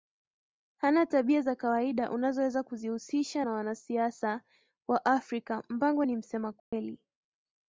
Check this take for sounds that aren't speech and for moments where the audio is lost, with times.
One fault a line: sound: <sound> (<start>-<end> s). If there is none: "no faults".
sound: dropout (6.6-6.7 s)